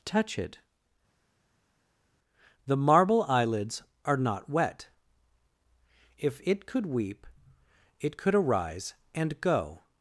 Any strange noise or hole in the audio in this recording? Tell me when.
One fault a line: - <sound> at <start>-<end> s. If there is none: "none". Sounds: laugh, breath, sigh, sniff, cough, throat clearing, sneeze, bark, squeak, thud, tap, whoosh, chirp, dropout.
none